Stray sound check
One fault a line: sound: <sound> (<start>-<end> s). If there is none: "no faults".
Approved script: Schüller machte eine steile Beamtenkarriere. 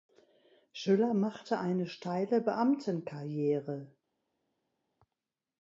no faults